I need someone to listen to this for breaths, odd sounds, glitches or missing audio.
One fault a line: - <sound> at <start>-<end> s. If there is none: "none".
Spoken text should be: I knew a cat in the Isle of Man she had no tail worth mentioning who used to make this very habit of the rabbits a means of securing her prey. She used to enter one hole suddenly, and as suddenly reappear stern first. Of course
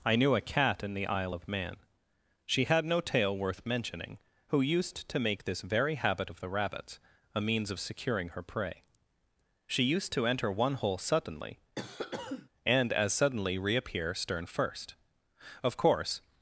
- cough at 11.8-12.5 s